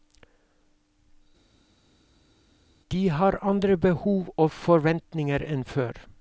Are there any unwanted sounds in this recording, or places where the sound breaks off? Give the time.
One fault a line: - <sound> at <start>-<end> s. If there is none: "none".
none